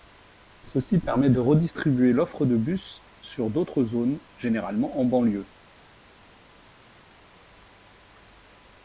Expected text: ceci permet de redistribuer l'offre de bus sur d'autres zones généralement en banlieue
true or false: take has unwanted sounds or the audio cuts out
false